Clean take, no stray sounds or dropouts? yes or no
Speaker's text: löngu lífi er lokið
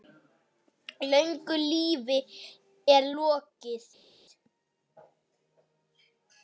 yes